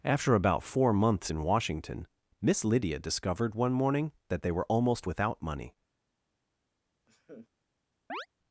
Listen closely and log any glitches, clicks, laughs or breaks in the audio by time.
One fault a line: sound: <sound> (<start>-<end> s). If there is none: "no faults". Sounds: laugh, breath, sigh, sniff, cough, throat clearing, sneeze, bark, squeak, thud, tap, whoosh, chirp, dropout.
sound: laugh (7.1-7.5 s)
sound: chirp (8.1-8.3 s)